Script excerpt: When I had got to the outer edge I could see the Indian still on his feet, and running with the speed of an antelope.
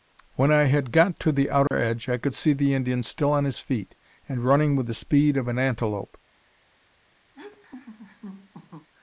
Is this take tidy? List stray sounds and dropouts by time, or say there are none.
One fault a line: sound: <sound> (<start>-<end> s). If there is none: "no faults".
sound: dropout (1.7-1.7 s)
sound: laugh (7.3-8.9 s)